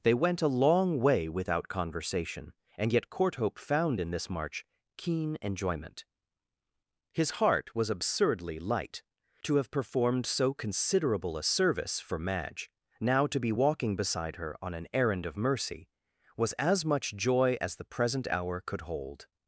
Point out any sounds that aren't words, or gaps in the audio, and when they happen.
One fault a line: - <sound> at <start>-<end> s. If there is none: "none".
none